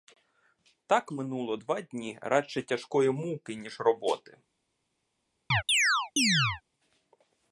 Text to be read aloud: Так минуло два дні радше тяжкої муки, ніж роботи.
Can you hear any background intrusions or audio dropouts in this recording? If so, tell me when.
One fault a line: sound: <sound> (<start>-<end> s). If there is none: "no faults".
sound: chirp (5.5-6.6 s)